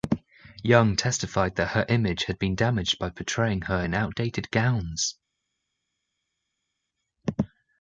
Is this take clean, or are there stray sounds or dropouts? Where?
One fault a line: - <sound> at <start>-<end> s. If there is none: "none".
none